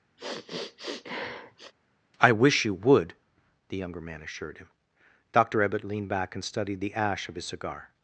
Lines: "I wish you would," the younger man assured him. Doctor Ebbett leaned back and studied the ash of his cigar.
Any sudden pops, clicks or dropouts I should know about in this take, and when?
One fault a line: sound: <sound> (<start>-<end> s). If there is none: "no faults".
sound: sniff (0.2-1.7 s)